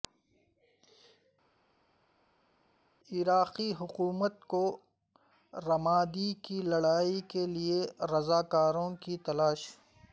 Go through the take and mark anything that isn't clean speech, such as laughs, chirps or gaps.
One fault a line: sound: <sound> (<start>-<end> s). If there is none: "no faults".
no faults